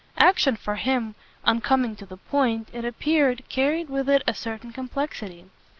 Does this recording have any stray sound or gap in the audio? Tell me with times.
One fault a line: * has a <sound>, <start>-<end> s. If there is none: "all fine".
all fine